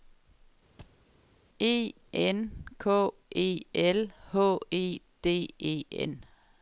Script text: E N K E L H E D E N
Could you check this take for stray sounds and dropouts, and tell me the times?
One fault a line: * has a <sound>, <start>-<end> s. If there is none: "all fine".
* has a thud, 0.8-1.0 s